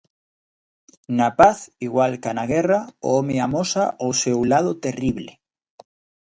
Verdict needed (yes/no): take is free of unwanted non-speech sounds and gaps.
yes